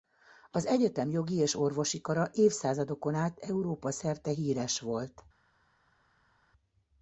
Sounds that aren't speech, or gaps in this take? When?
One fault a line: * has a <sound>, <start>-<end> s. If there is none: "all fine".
all fine